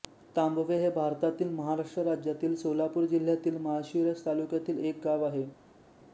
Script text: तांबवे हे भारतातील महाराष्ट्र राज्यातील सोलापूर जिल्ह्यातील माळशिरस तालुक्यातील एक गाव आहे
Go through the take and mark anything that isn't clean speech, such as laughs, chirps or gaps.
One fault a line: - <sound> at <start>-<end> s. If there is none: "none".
none